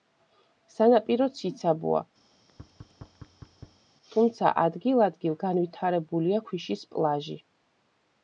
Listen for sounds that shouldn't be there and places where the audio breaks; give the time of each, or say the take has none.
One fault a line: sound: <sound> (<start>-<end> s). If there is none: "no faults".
sound: thud (2.3-3.9 s)